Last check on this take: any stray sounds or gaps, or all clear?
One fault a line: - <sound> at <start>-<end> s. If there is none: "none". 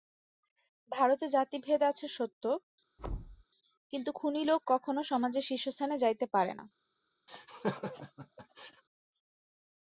- thud at 3.0-3.4 s
- laugh at 7.3-8.8 s